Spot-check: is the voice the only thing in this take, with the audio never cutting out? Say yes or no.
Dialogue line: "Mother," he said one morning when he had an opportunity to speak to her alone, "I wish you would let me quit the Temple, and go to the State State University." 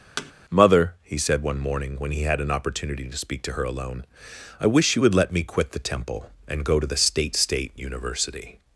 no